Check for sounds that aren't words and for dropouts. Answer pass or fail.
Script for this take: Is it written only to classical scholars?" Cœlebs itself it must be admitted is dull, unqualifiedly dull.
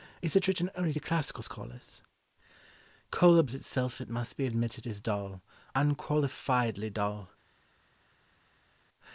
pass